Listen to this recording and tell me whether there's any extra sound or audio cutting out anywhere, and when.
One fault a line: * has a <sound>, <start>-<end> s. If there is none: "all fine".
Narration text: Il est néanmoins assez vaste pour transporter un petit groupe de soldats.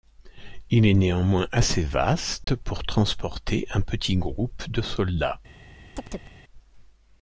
* has a dropout, 2.4-2.5 s
* has a chirp, 5.9-6.4 s